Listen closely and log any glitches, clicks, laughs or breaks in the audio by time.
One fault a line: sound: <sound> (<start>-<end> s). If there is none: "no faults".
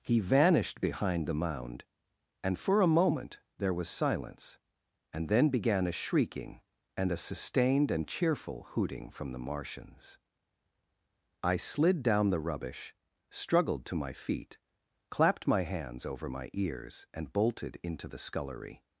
no faults